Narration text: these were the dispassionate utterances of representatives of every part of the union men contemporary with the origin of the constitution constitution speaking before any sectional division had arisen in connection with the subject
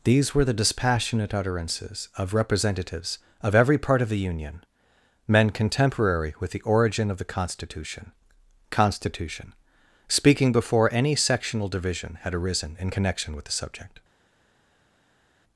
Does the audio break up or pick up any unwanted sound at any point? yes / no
no